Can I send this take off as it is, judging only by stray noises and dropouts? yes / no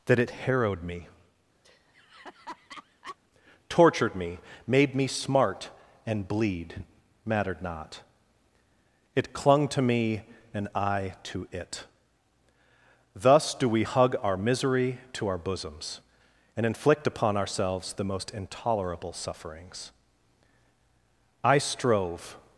no